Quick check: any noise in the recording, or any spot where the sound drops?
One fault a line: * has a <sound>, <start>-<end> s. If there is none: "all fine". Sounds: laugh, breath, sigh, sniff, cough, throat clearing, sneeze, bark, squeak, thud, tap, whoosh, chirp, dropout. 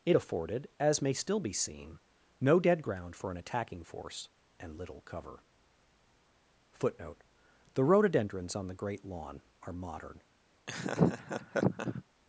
* has a laugh, 10.7-12.0 s